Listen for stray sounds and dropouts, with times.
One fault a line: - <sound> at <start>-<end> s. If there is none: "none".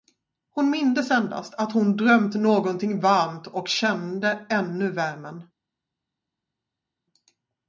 none